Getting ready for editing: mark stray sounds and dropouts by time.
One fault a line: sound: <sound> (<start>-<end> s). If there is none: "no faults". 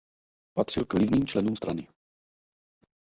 no faults